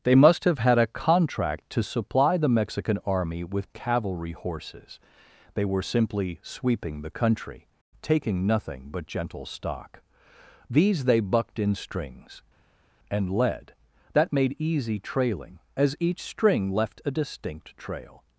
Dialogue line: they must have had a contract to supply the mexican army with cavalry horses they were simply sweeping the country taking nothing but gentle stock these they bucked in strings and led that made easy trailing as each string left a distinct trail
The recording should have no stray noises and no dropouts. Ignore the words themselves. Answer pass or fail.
pass